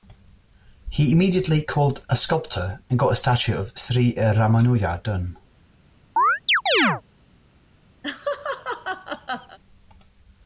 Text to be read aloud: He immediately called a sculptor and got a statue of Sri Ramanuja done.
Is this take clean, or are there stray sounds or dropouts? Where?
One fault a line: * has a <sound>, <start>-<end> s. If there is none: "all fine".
* has a chirp, 6.2-7.0 s
* has a laugh, 8.0-9.6 s